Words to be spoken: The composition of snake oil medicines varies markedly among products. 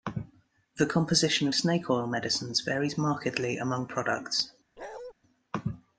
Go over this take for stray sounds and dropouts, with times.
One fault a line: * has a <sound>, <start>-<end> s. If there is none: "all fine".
* has a bark, 4.8-5.1 s